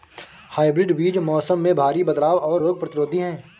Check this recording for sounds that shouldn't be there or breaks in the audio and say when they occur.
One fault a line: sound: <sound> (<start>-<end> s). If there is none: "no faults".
no faults